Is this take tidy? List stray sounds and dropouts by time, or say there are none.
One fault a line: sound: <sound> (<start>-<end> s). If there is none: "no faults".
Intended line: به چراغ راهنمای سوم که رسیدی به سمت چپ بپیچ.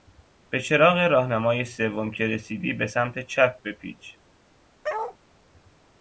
sound: bark (4.8-5.2 s)